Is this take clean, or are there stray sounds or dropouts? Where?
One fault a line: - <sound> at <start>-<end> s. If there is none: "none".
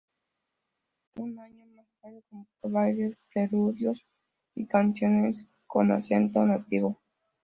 none